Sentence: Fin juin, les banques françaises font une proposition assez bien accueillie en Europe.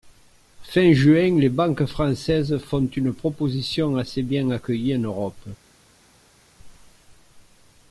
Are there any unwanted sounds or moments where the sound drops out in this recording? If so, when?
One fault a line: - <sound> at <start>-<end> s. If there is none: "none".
none